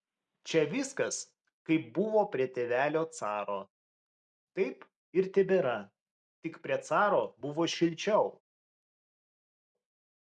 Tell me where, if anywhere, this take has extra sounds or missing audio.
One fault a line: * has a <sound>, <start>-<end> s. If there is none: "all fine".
all fine